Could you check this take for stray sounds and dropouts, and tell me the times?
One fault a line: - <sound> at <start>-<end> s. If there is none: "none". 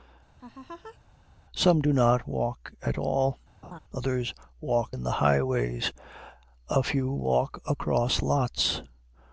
- laugh at 0.4-1.0 s
- laugh at 3.6-3.8 s